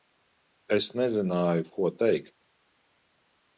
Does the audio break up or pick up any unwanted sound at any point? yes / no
no